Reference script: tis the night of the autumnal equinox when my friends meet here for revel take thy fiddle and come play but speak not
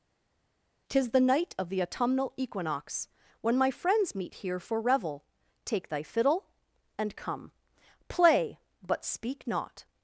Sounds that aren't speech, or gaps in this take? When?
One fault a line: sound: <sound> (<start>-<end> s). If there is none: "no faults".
no faults